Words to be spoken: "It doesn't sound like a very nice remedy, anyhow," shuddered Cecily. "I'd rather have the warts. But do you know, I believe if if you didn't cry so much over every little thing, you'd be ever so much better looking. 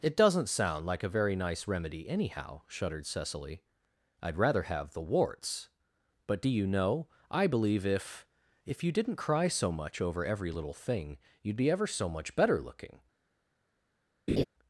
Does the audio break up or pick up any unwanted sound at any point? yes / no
yes